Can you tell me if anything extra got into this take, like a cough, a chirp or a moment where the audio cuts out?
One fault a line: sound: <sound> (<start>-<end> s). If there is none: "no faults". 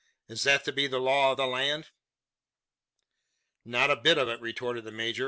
no faults